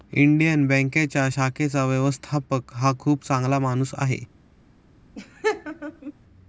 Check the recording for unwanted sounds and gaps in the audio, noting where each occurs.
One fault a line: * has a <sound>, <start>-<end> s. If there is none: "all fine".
* has a laugh, 5.2-6.1 s